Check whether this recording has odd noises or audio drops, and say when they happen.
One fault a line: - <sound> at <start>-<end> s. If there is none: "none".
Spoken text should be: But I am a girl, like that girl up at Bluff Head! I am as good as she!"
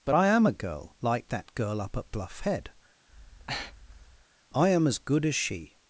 - breath at 3.1-4.3 s